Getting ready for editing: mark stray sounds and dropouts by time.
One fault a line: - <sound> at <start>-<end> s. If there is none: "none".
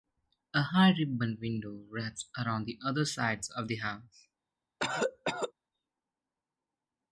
- cough at 4.8-5.5 s